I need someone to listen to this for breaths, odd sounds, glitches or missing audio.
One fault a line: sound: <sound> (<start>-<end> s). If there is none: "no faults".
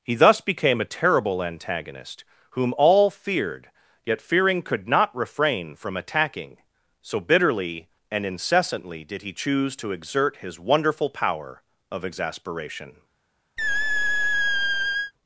sound: squeak (13.6-15.1 s)